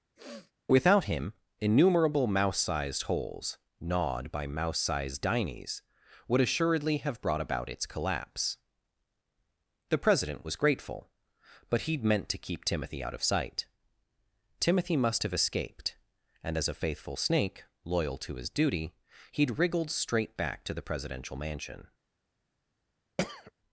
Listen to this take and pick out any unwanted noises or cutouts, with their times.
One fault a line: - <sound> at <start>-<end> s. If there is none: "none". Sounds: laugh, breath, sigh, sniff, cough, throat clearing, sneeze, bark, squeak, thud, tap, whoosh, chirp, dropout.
- sniff at 0.2-0.5 s
- throat clearing at 23.2-23.5 s